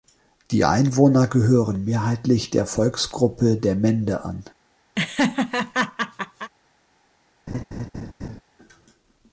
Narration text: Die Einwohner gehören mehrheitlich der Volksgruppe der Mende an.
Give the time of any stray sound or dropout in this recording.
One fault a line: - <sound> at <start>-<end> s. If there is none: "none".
- laugh at 5.0-6.5 s
- laugh at 7.5-8.4 s